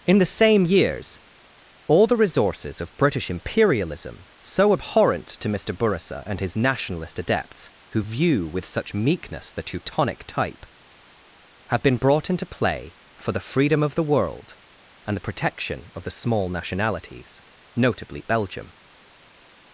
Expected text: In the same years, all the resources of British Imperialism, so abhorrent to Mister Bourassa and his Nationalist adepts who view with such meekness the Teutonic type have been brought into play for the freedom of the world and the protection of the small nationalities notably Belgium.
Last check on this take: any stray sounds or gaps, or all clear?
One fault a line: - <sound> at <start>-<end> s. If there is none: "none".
none